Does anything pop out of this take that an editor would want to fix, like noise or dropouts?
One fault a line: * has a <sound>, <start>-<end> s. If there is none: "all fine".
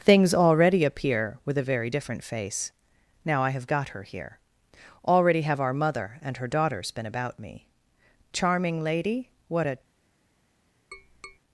* has a tap, 10.9-11.4 s